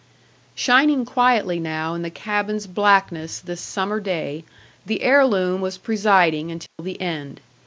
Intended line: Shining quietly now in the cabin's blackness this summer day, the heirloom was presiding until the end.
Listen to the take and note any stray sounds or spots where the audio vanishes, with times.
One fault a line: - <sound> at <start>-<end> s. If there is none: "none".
- dropout at 6.7-6.8 s